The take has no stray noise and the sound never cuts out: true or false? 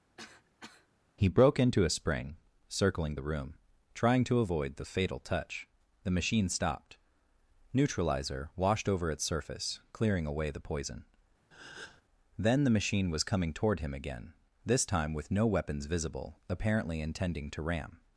false